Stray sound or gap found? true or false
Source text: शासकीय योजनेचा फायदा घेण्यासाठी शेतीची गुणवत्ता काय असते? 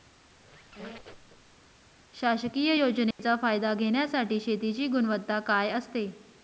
true